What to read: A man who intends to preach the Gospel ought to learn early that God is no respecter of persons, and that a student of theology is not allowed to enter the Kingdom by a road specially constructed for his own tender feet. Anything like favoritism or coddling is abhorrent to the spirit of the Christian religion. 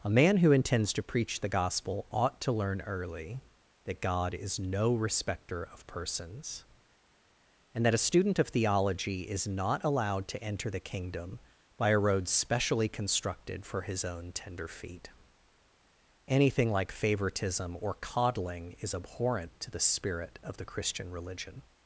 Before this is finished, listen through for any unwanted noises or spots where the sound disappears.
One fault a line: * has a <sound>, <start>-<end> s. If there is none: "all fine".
all fine